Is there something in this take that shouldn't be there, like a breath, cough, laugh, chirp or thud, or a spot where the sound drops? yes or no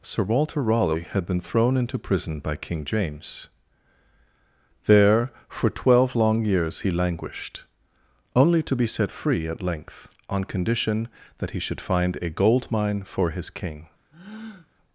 yes